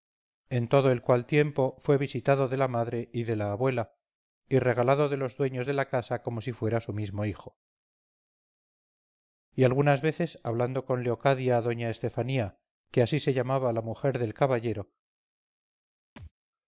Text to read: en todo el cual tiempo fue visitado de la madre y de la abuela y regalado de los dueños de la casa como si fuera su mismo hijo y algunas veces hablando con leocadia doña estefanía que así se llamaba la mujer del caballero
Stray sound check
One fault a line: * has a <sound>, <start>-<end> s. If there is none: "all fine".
* has a thud, 16.2-16.3 s